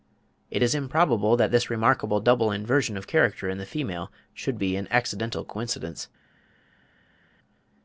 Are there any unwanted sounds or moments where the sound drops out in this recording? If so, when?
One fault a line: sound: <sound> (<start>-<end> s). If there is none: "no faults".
no faults